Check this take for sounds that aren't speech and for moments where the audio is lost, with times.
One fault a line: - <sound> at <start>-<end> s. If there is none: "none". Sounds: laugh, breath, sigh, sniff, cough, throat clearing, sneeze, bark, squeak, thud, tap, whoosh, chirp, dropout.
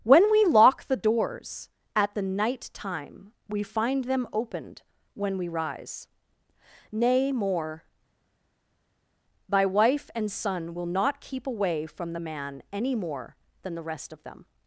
none